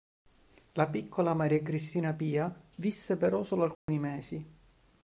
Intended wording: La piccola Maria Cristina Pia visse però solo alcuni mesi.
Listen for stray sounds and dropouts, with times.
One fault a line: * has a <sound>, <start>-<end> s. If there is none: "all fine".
* has a dropout, 3.7-3.9 s